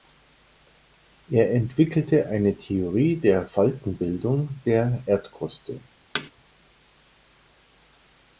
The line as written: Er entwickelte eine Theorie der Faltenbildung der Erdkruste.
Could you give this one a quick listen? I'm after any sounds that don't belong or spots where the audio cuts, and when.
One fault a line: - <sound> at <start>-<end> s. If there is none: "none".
- thud at 6.1-6.3 s